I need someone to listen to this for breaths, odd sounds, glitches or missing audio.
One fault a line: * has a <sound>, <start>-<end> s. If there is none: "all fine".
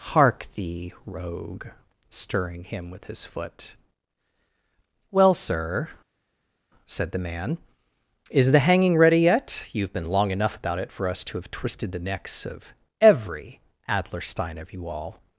all fine